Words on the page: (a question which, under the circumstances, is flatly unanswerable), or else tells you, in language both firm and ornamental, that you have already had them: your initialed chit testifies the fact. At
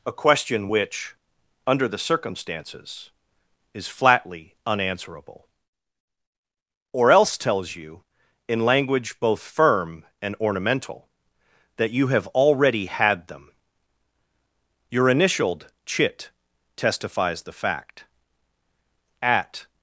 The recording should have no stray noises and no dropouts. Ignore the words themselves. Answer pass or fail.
pass